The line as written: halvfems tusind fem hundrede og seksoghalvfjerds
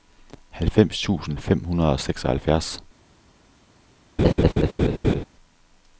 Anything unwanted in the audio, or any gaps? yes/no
yes